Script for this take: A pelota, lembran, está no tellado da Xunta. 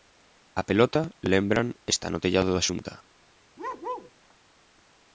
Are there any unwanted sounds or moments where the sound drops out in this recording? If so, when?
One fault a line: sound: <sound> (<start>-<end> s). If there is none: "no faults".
sound: bark (3.6-4.1 s)